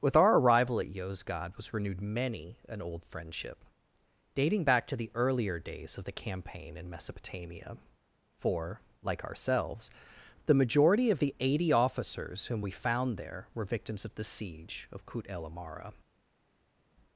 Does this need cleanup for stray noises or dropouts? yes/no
no